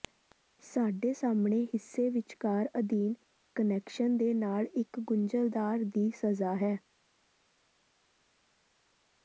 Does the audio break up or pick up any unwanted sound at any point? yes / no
no